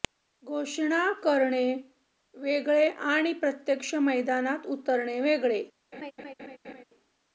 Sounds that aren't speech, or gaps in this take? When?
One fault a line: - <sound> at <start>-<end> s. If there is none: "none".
- laugh at 5.9-6.8 s